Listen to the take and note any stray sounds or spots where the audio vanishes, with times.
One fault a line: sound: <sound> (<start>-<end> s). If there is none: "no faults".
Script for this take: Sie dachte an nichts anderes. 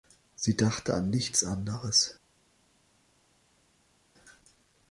no faults